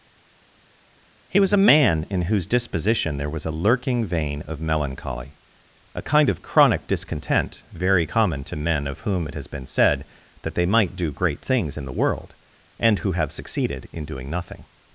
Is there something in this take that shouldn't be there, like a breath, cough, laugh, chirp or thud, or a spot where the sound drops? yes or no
no